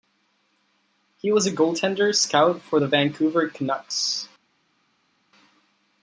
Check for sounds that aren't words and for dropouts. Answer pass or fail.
pass